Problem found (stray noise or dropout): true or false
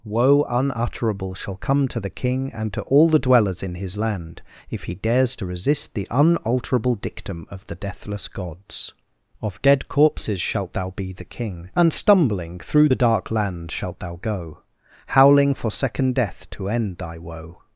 false